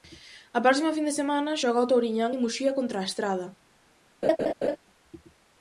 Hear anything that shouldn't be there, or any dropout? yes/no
yes